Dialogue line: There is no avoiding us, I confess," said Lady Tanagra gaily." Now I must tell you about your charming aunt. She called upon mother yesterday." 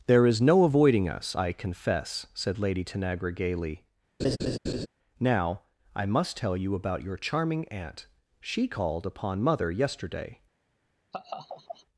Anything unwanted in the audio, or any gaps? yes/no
yes